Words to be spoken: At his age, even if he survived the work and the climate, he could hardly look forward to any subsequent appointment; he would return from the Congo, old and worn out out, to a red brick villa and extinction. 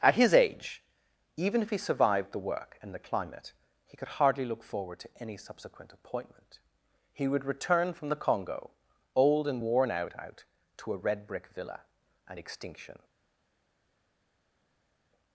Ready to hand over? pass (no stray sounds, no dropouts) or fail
pass